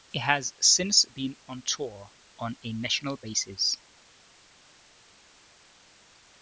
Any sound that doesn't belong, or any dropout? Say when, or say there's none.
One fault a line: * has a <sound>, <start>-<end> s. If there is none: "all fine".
all fine